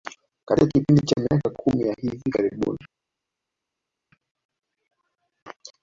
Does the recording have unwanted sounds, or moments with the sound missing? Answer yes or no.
no